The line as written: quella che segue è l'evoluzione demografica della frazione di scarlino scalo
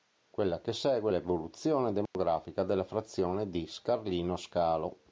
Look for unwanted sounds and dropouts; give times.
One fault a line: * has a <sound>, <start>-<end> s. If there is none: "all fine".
* has a dropout, 2.1-2.1 s